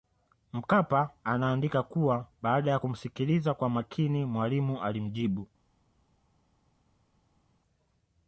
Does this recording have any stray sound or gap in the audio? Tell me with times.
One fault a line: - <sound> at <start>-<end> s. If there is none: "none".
none